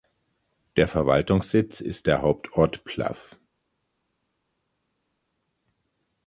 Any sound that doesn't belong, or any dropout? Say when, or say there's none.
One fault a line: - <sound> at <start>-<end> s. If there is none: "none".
none